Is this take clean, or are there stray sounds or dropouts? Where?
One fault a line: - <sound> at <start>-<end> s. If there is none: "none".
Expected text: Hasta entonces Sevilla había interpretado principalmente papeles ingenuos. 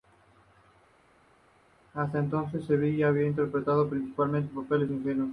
none